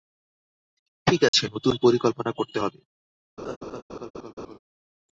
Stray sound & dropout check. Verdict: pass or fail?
fail